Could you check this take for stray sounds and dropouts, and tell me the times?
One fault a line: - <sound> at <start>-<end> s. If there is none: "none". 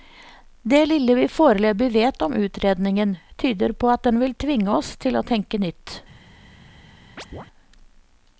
- chirp at 7.2-7.5 s